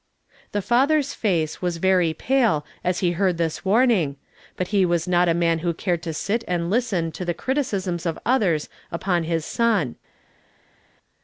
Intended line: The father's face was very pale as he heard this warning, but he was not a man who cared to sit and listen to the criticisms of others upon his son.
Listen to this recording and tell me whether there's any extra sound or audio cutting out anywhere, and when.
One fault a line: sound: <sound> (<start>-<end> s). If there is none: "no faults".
no faults